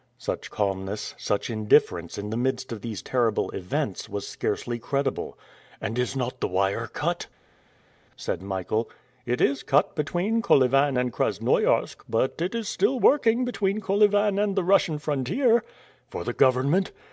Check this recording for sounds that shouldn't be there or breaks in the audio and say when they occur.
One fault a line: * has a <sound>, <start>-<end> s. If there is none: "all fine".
all fine